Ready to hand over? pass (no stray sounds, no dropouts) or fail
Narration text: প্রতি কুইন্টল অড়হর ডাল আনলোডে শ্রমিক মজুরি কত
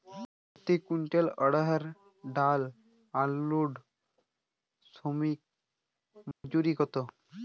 fail